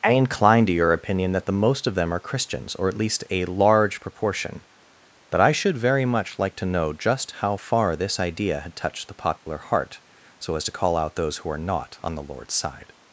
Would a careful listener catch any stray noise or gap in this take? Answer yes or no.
yes